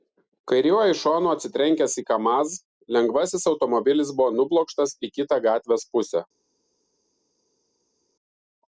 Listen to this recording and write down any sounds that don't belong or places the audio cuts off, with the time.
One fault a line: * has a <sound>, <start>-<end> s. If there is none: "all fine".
all fine